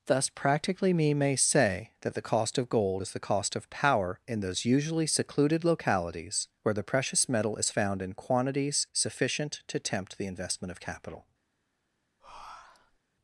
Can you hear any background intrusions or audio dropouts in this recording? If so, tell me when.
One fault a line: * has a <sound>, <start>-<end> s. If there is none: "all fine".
* has a breath, 12.2-13.0 s